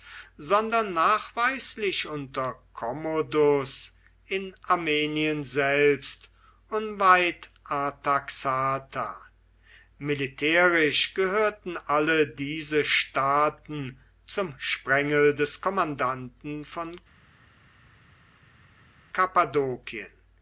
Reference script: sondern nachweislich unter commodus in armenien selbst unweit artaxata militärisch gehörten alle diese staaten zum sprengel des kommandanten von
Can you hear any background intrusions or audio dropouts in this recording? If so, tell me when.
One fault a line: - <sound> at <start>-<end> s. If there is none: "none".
none